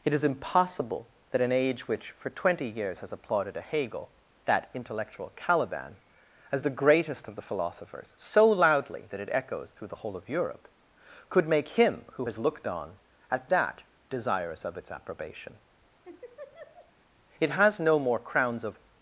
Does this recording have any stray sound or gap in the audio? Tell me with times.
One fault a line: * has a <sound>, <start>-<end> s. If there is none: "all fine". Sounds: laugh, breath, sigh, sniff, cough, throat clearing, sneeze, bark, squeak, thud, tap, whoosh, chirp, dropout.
* has a laugh, 16.0-16.9 s